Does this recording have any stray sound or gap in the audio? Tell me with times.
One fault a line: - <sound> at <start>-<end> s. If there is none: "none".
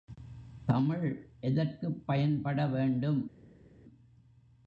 none